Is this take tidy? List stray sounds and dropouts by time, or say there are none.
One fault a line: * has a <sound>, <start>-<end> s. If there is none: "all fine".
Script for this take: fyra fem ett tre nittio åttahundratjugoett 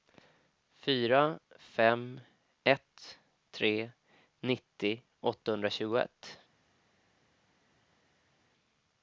all fine